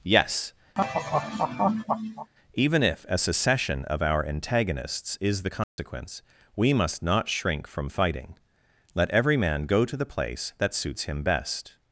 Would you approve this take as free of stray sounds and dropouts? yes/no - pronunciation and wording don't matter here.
no